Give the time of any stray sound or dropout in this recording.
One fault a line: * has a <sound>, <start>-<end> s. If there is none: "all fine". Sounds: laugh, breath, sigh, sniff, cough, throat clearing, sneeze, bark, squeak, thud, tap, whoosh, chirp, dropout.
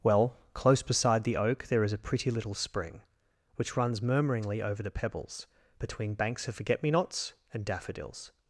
all fine